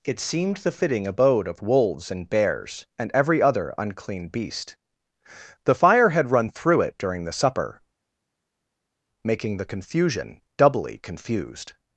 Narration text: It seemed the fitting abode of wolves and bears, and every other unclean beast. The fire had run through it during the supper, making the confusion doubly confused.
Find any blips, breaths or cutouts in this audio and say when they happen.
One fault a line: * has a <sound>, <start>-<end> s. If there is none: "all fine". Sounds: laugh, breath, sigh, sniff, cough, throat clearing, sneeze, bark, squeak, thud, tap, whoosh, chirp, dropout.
all fine